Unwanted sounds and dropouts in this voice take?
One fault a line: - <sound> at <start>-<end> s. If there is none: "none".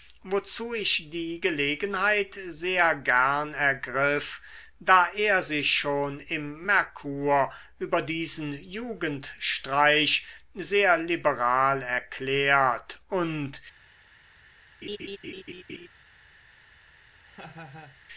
- laugh at 14.8-15.9 s
- laugh at 17.3-18.0 s